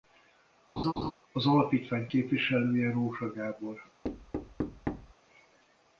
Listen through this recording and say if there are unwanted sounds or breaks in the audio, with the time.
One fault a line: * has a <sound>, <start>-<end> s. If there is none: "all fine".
* has a laugh, 0.8-1.1 s
* has a thud, 4.0-5.1 s